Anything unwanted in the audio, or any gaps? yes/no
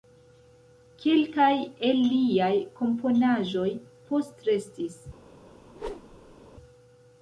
yes